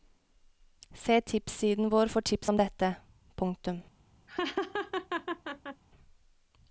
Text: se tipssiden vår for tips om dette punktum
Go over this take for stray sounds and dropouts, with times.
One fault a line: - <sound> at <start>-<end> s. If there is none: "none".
- laugh at 4.3-5.8 s